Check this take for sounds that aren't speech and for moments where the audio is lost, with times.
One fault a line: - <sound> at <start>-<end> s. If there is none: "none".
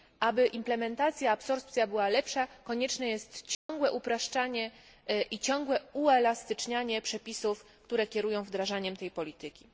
- dropout at 3.5-3.7 s